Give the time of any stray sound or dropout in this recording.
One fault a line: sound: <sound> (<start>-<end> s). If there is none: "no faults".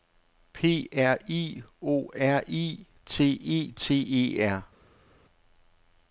no faults